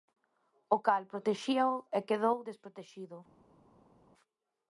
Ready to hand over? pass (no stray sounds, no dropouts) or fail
pass